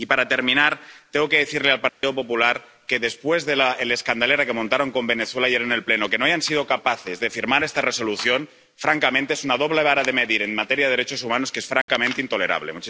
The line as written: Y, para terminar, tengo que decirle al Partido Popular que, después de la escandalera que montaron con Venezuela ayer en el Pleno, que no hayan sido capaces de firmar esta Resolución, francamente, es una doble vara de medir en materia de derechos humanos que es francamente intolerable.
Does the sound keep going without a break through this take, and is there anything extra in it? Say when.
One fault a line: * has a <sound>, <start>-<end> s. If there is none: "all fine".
* has a dropout, 1.9-2.0 s
* has a dropout, 11.8-11.9 s